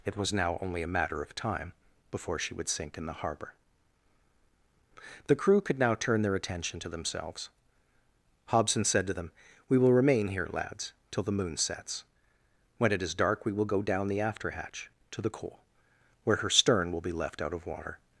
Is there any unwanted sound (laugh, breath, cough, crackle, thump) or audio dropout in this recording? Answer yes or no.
no